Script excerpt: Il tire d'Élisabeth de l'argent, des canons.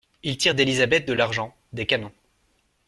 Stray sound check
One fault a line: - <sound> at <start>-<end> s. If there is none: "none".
none